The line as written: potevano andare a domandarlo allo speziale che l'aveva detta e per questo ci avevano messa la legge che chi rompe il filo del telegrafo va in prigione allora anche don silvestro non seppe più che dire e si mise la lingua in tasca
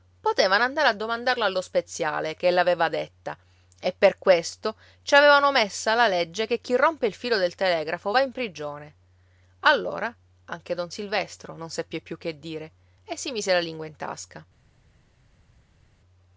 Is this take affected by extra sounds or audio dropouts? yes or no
no